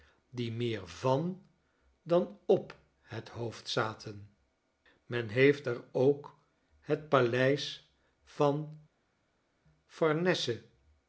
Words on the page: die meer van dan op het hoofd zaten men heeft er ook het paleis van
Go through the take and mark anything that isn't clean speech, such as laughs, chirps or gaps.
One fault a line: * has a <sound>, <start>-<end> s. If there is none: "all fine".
all fine